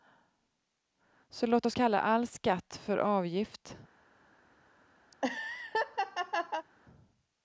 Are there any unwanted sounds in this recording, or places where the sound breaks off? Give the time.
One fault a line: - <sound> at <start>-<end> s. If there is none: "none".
- laugh at 5.1-6.7 s